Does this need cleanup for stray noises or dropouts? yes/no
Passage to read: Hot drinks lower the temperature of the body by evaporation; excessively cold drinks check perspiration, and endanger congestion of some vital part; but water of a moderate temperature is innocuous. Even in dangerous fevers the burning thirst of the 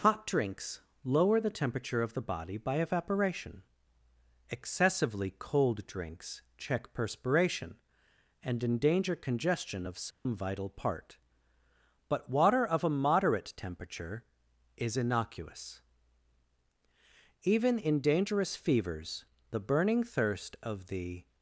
yes